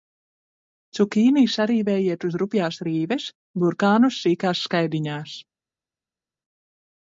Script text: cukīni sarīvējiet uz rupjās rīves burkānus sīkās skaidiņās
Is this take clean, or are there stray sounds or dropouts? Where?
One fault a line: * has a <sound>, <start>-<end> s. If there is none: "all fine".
all fine